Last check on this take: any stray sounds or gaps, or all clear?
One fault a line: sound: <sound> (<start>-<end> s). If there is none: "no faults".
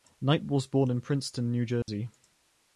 sound: dropout (1.8-1.9 s)